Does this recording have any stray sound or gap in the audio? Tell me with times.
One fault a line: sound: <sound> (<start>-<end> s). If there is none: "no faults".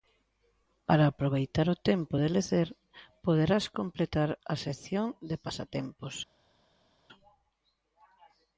no faults